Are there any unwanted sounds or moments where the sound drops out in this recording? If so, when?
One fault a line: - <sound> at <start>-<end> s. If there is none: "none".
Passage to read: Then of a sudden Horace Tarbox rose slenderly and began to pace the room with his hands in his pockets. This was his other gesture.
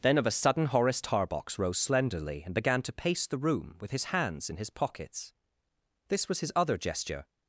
none